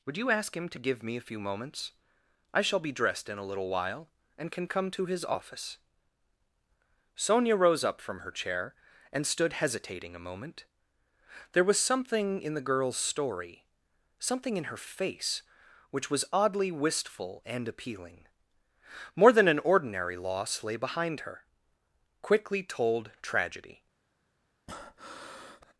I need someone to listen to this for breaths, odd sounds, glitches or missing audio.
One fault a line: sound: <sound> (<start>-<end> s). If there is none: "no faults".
sound: breath (24.7-25.7 s)